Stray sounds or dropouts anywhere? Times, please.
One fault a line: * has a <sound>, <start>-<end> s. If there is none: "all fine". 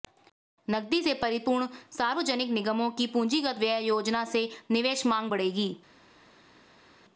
all fine